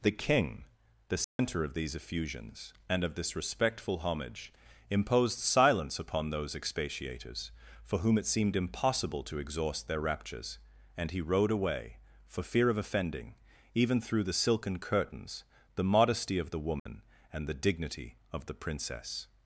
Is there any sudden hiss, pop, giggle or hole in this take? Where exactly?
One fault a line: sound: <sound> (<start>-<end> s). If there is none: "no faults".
sound: dropout (1.2-1.4 s)
sound: dropout (16.8-16.9 s)